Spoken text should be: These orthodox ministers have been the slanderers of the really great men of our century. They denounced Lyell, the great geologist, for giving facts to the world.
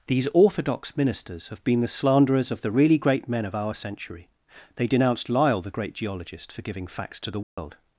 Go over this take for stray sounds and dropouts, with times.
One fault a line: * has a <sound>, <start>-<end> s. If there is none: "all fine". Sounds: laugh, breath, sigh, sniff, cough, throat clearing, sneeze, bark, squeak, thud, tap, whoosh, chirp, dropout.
* has a dropout, 7.4-7.6 s